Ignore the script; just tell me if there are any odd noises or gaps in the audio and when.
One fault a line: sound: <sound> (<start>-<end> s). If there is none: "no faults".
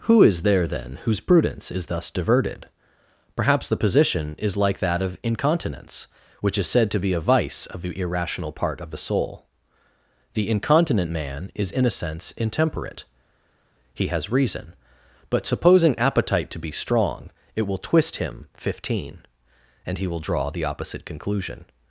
no faults